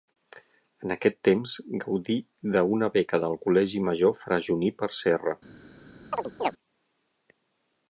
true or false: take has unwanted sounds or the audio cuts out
true